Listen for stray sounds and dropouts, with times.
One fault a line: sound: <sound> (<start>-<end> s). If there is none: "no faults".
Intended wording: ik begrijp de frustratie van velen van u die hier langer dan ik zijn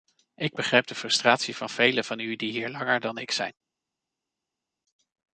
no faults